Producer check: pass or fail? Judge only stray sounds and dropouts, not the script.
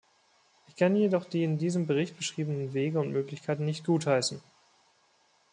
pass